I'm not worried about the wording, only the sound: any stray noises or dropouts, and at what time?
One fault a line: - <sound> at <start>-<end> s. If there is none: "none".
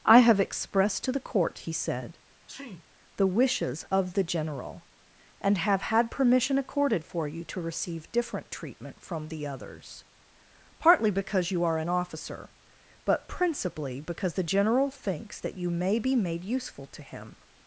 - sneeze at 2.5-2.8 s